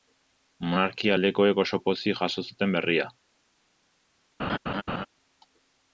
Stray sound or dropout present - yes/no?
yes